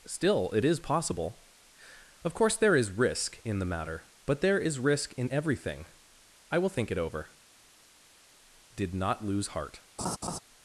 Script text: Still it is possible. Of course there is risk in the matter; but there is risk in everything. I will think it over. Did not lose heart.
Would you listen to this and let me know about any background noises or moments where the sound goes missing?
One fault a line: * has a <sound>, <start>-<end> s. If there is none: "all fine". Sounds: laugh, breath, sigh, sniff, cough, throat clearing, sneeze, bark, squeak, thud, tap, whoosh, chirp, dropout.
* has a laugh, 10.0-10.4 s